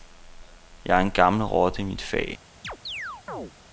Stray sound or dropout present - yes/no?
yes